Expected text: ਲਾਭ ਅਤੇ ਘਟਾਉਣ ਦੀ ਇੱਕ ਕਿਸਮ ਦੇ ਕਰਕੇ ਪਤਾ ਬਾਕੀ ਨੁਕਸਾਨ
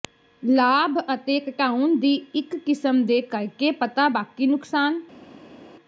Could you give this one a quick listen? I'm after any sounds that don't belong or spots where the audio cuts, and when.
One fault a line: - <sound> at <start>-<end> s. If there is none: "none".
none